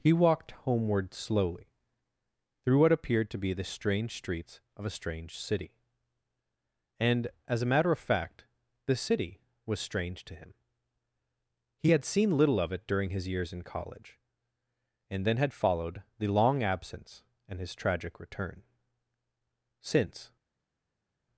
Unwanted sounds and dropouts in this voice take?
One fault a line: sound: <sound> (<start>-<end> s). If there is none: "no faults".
no faults